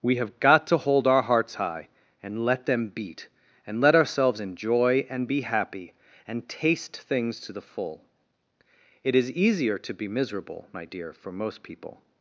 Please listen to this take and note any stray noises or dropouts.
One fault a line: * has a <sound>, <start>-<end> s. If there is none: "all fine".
all fine